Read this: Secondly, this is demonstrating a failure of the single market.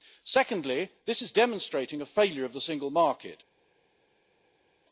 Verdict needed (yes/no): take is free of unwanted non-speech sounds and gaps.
yes